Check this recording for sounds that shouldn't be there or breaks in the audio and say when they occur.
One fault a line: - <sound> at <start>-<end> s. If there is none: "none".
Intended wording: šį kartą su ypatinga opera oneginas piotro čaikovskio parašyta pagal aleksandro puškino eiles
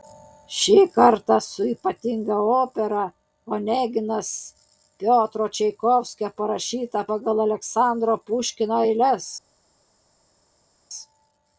none